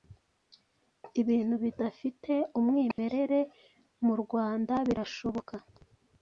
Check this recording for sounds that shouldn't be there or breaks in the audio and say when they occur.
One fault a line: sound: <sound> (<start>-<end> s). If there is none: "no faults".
sound: dropout (2.9-3.0 s)